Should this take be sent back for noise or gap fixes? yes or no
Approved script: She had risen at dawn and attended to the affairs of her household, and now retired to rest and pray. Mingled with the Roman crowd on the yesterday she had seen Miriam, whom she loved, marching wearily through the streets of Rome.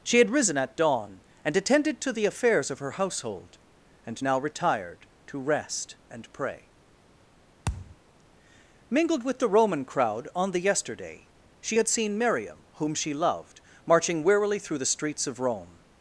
yes